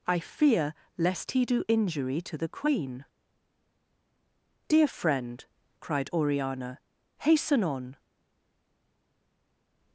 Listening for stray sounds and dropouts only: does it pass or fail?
pass